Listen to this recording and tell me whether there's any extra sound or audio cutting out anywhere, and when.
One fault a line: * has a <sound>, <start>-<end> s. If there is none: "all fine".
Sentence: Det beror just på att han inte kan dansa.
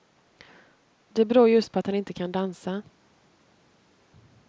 all fine